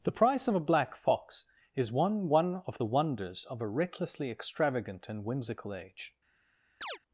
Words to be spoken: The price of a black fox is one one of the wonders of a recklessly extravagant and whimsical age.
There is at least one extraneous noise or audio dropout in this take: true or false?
true